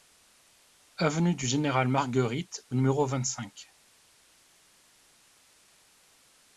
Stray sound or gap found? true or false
false